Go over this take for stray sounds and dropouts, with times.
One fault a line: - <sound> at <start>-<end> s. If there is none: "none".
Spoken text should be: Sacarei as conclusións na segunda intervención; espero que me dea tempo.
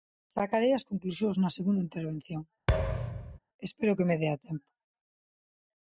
- thud at 2.7-3.4 s